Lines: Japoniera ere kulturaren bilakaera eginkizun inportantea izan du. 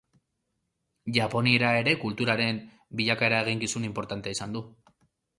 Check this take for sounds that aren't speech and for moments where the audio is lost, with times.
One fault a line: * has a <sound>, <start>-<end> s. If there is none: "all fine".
all fine